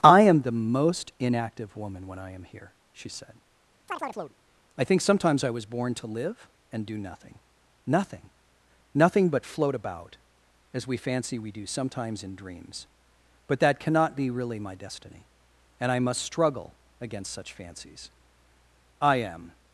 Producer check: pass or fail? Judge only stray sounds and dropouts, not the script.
fail